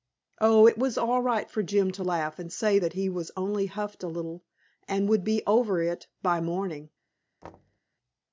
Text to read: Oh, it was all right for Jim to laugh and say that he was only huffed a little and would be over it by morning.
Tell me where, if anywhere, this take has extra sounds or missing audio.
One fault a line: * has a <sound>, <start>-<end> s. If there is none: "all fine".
* has a thud, 7.4-7.8 s